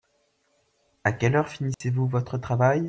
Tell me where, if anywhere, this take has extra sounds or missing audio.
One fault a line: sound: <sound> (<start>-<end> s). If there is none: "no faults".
sound: dropout (1.7-1.8 s)